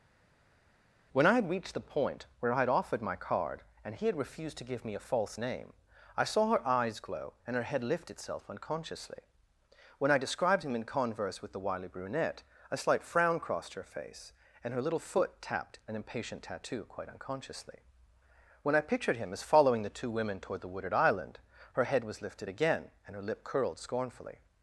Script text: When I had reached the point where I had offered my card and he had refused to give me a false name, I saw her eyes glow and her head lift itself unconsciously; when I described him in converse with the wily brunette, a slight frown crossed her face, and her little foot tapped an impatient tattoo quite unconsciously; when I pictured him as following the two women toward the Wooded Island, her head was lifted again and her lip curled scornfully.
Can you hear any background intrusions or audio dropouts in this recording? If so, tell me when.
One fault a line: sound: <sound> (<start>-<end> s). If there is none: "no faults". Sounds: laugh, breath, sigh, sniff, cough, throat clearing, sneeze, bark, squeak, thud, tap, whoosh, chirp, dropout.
no faults